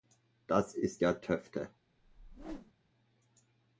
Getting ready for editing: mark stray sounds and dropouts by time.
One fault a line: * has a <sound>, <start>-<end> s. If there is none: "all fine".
* has a whoosh, 2.0-2.7 s